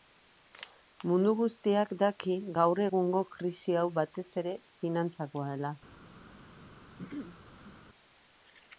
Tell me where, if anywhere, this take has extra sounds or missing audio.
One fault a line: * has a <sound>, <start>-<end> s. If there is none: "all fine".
* has a throat clearing, 7.0-7.8 s